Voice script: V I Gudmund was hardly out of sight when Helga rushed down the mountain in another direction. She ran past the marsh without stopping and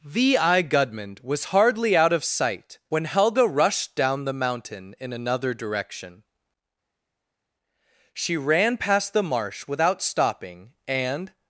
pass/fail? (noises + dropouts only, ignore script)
pass